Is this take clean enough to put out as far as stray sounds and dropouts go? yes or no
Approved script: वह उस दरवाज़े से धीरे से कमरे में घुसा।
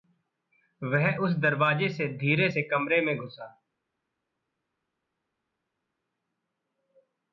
yes